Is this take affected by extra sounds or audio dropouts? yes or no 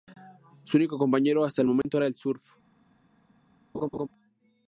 yes